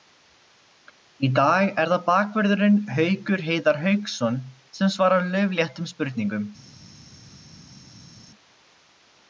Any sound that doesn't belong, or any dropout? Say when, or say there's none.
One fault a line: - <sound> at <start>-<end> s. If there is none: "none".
none